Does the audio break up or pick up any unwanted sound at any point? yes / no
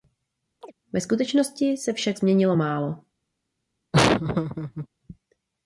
yes